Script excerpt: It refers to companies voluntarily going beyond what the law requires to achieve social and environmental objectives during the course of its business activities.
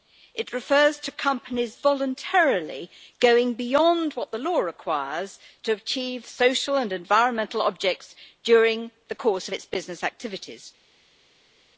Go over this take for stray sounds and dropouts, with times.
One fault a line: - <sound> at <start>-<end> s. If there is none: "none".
none